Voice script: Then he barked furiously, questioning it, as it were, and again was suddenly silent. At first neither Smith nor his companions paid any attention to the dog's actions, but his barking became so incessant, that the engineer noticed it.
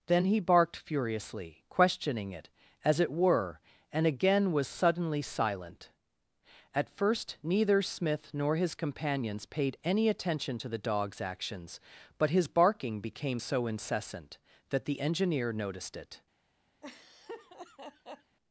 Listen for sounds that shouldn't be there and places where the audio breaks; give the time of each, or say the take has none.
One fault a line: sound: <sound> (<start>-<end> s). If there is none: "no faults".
sound: laugh (16.8-18.4 s)